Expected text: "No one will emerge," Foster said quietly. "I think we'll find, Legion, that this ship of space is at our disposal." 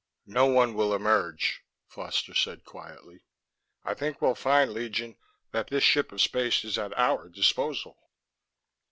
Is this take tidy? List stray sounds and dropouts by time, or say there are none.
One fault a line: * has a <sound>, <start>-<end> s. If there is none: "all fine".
all fine